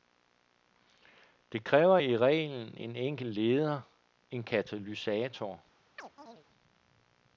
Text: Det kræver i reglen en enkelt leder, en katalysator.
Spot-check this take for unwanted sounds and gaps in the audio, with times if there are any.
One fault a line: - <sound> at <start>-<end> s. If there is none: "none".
- chirp at 6.0-6.5 s